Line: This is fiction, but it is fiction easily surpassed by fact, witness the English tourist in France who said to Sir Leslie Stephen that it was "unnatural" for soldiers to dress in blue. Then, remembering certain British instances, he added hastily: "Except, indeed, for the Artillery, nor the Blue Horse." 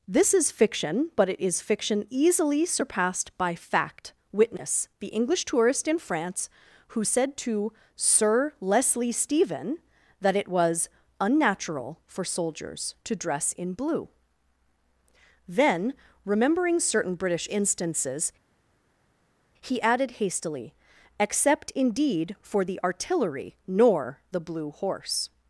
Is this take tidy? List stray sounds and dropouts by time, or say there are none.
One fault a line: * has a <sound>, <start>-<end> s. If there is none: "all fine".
all fine